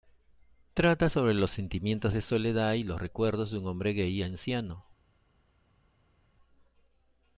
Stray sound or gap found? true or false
false